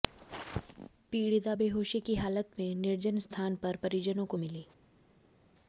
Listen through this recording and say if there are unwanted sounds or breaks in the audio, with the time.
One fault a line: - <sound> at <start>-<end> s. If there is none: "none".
none